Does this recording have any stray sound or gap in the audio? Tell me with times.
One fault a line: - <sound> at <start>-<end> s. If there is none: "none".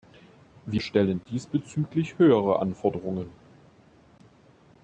none